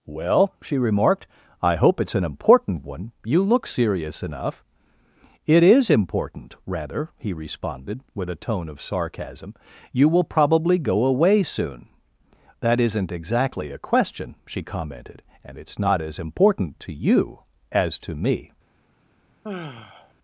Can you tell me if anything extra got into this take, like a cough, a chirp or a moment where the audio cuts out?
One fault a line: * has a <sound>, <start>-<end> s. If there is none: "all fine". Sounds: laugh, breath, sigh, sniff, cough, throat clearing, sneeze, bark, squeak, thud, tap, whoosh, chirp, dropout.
* has a sigh, 19.4-20.1 s